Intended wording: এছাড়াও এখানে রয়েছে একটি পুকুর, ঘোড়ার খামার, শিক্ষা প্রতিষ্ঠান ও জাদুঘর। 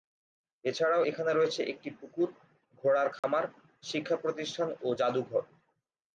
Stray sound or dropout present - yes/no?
yes